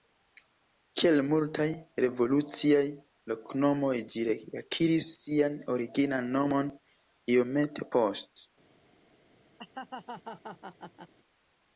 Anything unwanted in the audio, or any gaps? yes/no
yes